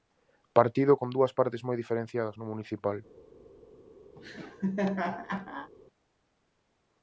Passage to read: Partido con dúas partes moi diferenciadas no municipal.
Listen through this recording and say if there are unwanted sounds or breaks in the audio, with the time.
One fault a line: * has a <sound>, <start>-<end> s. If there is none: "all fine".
* has a laugh, 4.2-5.7 s